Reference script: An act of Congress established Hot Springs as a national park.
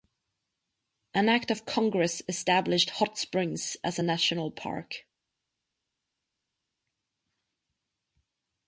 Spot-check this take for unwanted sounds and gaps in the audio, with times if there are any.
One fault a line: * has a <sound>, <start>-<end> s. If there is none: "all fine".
all fine